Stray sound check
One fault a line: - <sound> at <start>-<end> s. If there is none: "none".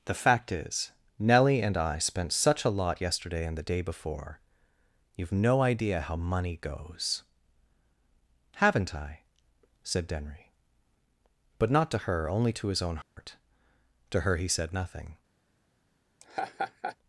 - dropout at 13.0-13.2 s
- laugh at 16.2-17.0 s